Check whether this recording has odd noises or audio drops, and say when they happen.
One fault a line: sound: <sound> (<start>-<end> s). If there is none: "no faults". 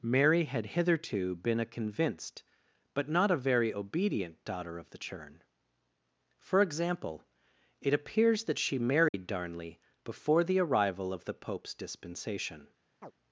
sound: dropout (9.1-9.1 s)
sound: chirp (13.0-13.1 s)